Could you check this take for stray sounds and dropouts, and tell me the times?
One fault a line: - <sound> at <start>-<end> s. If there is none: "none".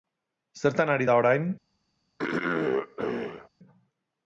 - throat clearing at 2.2-3.5 s